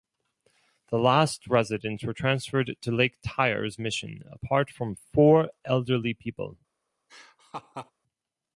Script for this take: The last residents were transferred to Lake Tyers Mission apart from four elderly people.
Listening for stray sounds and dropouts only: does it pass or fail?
fail